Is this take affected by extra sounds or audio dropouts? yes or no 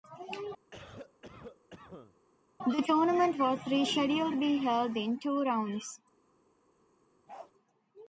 yes